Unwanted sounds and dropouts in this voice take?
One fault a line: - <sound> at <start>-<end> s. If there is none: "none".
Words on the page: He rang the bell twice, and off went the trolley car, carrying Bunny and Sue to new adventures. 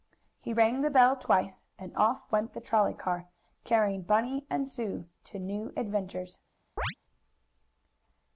- chirp at 6.8-6.9 s